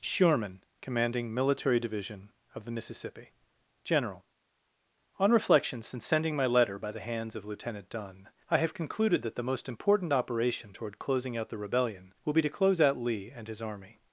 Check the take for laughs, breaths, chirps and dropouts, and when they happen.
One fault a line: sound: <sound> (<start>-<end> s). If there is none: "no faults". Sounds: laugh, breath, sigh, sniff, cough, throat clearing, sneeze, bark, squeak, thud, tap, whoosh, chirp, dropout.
no faults